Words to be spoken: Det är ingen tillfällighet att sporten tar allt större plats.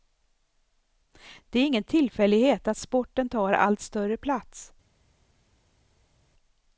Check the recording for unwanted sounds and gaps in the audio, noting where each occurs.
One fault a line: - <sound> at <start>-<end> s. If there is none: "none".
none